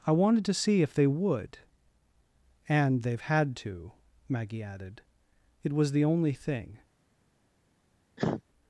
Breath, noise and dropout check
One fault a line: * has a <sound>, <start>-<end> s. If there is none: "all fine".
* has a cough, 8.2-8.4 s